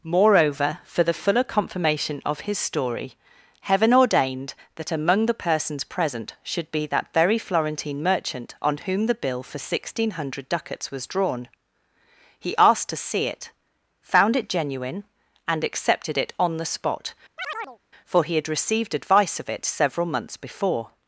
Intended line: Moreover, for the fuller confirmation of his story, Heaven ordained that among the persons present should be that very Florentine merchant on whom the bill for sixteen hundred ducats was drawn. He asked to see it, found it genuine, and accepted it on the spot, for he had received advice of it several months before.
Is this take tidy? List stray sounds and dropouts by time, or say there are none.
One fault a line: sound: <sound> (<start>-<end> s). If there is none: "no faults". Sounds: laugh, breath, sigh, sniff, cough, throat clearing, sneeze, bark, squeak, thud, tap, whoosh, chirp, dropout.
sound: chirp (17.4-17.8 s)